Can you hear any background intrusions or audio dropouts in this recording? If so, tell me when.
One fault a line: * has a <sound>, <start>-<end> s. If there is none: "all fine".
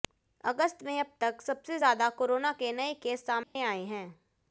* has a dropout, 3.4-3.6 s